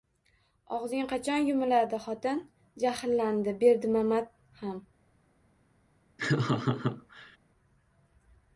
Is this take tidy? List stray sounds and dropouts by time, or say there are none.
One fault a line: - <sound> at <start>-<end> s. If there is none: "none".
- laugh at 6.2-7.4 s